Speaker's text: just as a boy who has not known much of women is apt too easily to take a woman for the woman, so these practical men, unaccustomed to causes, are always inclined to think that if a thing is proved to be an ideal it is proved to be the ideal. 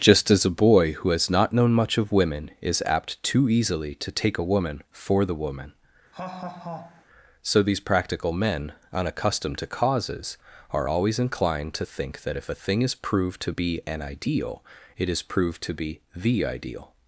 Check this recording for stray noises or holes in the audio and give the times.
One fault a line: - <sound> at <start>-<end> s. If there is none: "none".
- laugh at 6.1-7.1 s